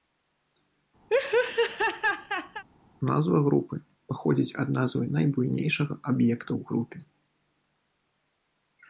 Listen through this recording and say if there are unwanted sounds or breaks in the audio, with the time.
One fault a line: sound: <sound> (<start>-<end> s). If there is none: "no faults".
sound: laugh (1.1-2.6 s)